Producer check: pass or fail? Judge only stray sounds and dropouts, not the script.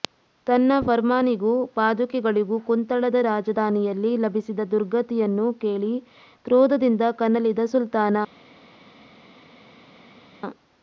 pass